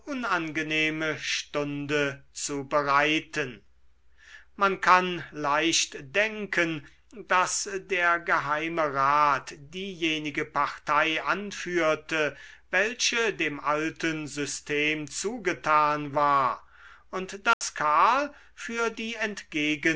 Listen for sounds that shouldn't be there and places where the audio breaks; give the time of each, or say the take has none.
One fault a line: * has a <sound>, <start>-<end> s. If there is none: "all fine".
* has a dropout, 17.5-17.6 s